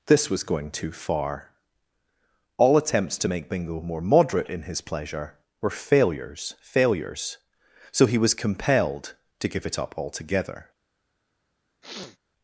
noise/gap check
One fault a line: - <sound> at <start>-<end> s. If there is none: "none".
- sniff at 11.8-12.2 s